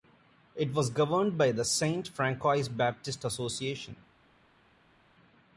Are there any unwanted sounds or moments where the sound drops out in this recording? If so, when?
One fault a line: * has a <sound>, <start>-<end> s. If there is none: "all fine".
all fine